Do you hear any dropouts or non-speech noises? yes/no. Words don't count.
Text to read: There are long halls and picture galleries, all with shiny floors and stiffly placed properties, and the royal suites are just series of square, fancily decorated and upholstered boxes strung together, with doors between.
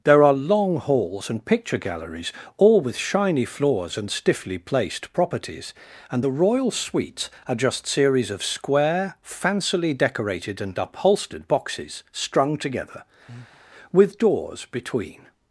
yes